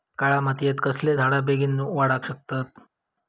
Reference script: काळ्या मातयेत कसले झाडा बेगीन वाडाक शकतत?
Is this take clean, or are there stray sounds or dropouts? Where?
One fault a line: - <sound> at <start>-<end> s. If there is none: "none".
none